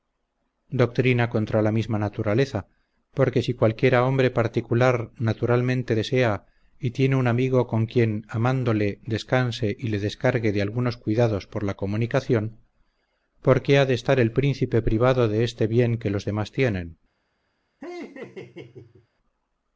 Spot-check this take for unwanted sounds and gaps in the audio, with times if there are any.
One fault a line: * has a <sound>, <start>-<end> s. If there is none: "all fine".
* has a laugh, 17.8-19.1 s